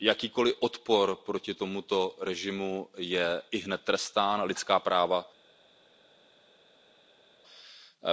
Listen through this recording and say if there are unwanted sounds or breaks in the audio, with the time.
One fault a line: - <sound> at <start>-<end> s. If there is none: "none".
none